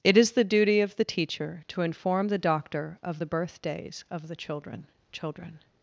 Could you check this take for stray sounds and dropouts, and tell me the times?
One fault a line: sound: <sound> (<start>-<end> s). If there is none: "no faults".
no faults